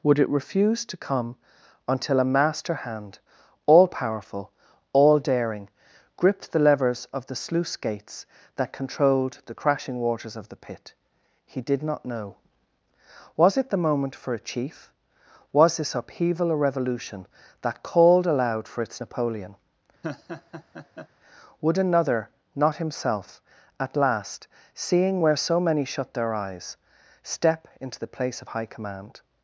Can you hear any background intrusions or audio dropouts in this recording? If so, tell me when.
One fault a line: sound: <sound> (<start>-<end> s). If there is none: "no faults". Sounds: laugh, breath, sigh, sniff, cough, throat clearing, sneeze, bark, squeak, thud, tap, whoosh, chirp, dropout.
sound: laugh (20.0-21.1 s)